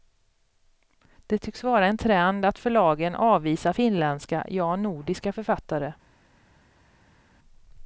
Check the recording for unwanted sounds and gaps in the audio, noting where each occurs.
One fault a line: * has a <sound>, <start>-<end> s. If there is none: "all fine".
all fine